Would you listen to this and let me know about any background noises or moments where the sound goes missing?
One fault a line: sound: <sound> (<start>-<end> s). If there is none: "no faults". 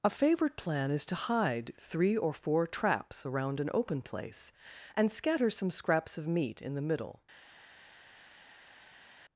no faults